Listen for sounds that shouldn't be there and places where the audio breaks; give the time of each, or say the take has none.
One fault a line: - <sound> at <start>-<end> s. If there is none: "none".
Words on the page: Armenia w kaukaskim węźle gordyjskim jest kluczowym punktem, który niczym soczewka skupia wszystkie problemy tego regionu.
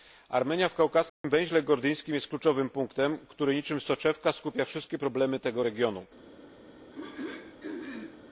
- dropout at 1.1-1.2 s
- throat clearing at 6.9-8.2 s